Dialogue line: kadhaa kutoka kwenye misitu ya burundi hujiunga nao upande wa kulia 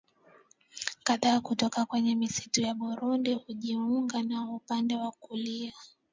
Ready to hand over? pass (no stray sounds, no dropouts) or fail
pass